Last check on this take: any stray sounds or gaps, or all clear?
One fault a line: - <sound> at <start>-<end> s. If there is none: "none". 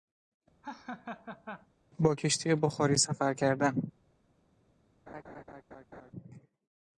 - laugh at 0.6-1.7 s
- laugh at 5.1-6.1 s